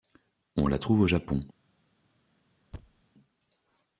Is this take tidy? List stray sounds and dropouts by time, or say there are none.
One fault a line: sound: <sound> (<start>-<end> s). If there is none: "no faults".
sound: thud (2.7-3.0 s)